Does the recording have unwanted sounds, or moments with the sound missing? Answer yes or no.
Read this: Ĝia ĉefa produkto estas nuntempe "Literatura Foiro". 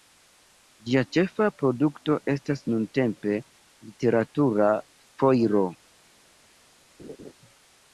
yes